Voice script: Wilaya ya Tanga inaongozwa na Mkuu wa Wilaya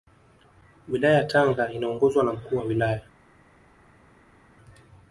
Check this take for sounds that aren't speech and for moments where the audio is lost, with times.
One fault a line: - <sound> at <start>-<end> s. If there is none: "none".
none